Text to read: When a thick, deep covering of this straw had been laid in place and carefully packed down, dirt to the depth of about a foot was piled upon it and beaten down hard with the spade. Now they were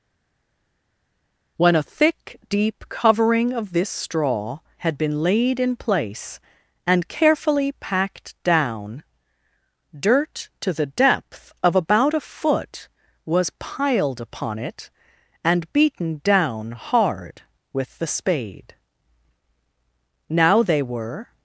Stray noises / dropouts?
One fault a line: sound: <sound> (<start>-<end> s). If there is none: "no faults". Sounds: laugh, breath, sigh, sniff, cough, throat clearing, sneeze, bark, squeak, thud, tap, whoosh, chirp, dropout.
no faults